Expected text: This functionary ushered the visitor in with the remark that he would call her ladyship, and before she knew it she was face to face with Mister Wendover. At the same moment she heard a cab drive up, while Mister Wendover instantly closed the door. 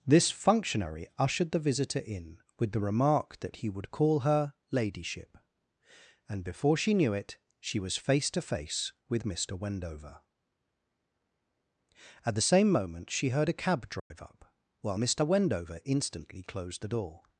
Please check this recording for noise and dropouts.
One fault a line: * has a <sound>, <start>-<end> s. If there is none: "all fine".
* has a dropout, 14.0-14.1 s